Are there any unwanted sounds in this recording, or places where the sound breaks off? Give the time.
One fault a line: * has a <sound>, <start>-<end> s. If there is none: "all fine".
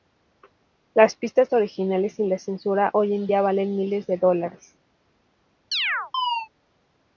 * has a chirp, 5.7-6.5 s